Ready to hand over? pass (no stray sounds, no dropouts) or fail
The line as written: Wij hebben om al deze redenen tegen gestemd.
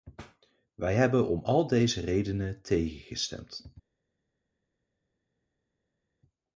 pass